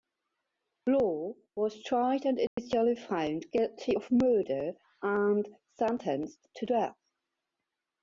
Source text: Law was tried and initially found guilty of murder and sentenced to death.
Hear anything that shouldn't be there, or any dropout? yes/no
yes